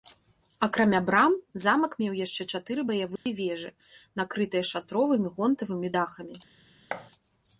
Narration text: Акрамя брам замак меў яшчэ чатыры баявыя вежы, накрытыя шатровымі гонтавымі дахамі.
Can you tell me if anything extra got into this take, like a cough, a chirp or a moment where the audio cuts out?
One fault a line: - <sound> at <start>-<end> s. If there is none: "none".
- dropout at 3.2-3.3 s
- thud at 6.9-7.1 s